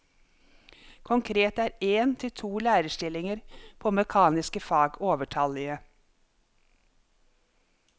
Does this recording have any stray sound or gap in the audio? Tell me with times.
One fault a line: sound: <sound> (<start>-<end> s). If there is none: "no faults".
no faults